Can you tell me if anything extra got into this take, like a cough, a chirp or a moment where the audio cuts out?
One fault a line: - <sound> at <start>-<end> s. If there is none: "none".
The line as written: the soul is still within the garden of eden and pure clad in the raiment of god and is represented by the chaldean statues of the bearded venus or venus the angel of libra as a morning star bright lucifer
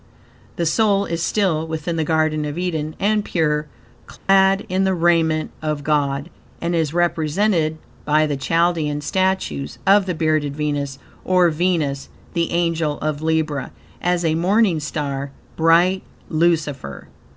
- dropout at 4.2-4.3 s